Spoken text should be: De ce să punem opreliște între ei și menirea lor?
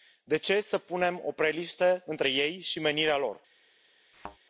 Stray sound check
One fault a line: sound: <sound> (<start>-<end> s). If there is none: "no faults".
sound: thud (4.1-4.4 s)